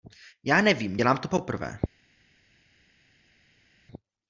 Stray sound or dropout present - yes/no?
no